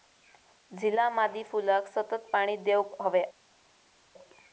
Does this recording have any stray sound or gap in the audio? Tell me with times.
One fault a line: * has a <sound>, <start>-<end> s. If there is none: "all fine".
all fine